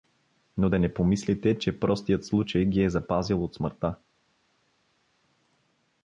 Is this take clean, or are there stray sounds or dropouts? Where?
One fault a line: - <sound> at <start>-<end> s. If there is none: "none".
none